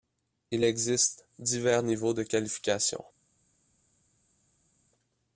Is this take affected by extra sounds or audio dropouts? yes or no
no